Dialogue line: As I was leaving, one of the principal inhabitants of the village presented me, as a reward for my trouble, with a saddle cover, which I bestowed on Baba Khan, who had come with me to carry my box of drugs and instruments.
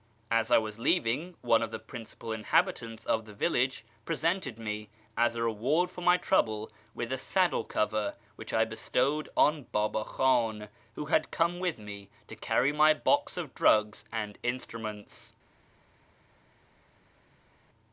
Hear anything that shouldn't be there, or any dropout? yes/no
no